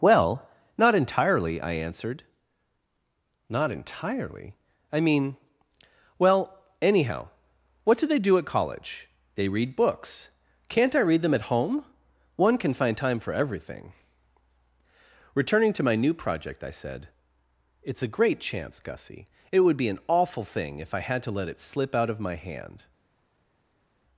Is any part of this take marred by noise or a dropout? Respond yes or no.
no